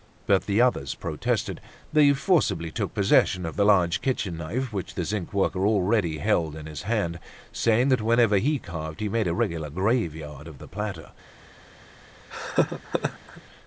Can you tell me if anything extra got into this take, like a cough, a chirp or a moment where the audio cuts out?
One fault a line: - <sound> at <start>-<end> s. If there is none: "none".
- laugh at 12.3-13.4 s